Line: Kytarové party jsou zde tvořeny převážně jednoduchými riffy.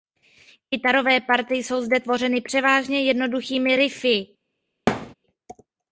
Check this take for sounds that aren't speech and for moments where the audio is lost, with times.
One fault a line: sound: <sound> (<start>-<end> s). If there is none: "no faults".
sound: thud (4.9-5.1 s)